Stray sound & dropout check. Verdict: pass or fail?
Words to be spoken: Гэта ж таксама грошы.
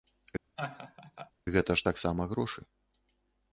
fail